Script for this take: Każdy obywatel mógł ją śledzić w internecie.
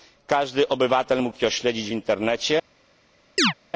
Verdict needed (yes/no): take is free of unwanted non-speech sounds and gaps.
no